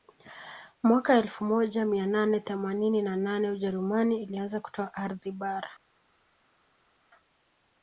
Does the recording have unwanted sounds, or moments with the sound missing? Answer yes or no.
no